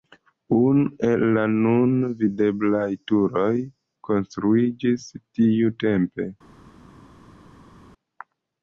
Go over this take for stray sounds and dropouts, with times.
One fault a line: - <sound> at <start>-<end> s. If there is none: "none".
none